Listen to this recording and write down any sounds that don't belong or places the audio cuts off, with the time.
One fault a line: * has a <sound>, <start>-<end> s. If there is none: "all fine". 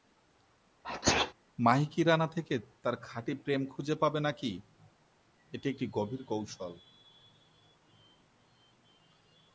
* has a sneeze, 0.8-1.3 s